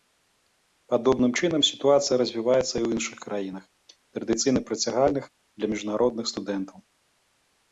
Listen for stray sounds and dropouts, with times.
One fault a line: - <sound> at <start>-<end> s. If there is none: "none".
none